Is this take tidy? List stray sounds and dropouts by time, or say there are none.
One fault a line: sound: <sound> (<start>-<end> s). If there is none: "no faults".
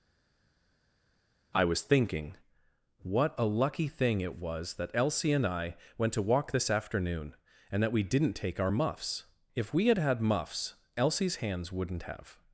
no faults